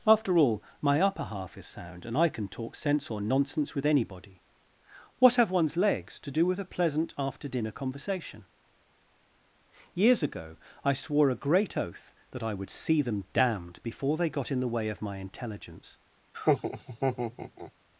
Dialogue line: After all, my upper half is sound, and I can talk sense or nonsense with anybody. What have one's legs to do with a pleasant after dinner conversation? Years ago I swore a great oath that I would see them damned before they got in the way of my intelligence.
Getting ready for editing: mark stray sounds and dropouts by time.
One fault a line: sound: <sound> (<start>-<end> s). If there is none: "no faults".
sound: laugh (16.3-17.7 s)